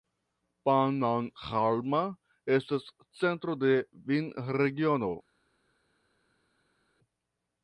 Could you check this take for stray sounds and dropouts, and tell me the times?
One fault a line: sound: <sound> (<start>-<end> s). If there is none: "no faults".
no faults